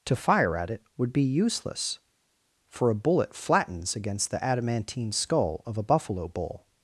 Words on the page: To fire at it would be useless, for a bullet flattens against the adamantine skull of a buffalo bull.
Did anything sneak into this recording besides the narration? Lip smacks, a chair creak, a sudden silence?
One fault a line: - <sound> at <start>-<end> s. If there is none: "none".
none